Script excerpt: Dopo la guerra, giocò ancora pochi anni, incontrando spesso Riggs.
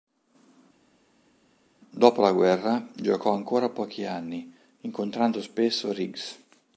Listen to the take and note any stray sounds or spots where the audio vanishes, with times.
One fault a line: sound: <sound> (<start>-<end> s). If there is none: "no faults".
no faults